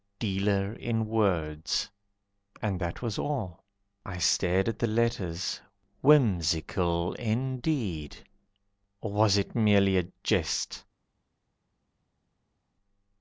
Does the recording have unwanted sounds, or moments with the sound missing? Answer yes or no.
no